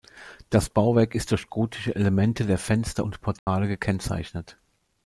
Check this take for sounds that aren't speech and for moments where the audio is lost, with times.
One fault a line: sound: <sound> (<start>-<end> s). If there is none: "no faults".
sound: dropout (3.4-3.5 s)